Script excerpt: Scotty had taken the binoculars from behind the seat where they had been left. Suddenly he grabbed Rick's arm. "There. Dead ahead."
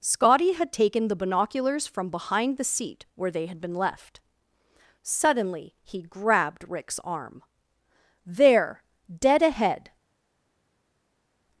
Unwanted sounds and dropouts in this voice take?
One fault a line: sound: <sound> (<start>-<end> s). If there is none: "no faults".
no faults